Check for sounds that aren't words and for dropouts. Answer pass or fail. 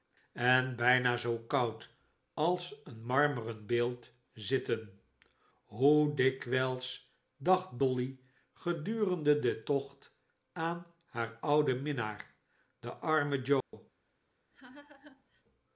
fail